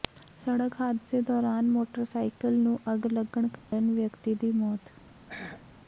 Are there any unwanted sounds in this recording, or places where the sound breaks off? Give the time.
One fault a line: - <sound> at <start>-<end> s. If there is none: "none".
- dropout at 3.6-3.7 s
- throat clearing at 5.3-5.7 s